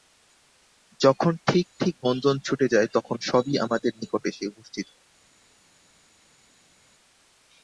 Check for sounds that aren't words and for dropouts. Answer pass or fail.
pass